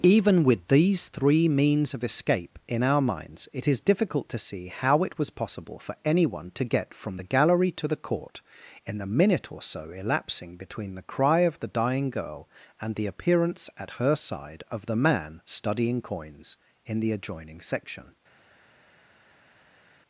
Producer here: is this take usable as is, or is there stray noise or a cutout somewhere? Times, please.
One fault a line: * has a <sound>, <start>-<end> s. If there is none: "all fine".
all fine